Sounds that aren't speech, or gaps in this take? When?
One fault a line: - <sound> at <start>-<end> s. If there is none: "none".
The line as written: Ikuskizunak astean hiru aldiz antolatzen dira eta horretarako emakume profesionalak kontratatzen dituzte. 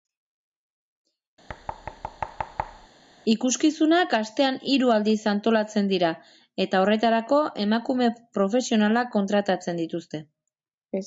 - thud at 1.5-2.9 s